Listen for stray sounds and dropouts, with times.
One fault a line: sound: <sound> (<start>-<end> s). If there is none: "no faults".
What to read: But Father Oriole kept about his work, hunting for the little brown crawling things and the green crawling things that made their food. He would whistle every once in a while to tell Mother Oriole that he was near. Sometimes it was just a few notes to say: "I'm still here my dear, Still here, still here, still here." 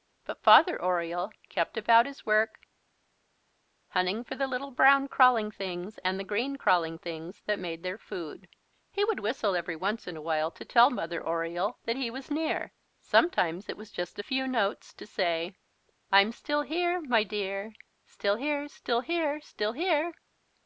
no faults